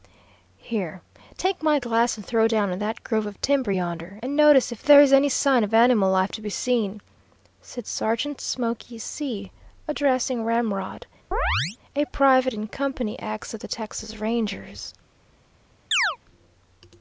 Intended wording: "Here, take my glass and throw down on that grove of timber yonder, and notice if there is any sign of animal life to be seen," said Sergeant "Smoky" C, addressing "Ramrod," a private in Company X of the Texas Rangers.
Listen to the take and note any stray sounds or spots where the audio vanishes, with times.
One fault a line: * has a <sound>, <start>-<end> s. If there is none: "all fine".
* has a chirp, 11.3-11.8 s
* has a chirp, 15.9-16.2 s